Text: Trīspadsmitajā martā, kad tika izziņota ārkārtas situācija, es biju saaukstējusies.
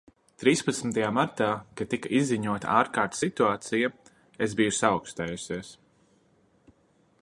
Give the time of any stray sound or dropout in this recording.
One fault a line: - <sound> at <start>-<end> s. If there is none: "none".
none